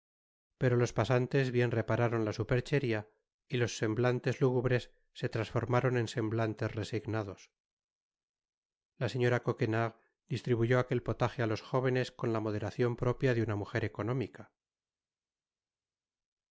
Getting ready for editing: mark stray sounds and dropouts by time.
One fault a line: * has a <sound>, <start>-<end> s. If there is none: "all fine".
all fine